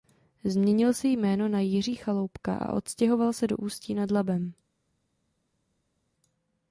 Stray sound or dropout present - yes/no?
no